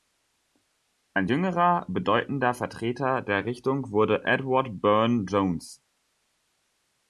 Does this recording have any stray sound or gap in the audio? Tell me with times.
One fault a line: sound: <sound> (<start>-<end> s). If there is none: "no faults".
no faults